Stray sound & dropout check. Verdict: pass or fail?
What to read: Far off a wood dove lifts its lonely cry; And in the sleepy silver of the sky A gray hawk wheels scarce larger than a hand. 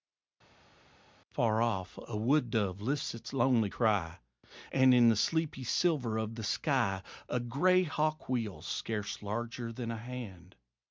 pass